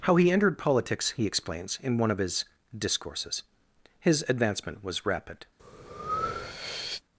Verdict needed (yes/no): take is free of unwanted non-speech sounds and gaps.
no